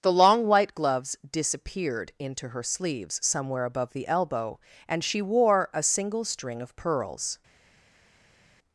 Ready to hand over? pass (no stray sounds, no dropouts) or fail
pass